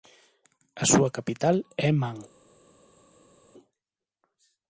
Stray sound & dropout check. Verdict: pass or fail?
pass